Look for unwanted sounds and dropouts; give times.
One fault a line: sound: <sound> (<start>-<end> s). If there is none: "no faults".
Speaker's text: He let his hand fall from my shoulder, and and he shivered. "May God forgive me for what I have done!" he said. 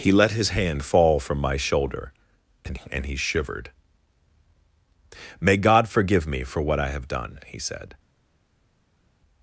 no faults